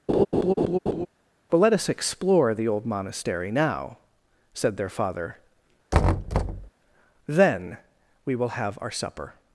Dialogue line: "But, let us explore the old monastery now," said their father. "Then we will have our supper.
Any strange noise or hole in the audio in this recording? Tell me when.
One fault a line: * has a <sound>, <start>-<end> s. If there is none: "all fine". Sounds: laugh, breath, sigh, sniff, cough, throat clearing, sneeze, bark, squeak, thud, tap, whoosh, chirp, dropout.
* has a laugh, 0.1-1.1 s
* has a thud, 5.9-6.7 s